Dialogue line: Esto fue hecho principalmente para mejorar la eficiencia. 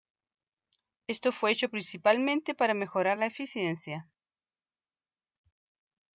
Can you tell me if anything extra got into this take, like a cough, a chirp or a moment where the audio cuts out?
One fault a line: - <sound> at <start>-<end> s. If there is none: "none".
none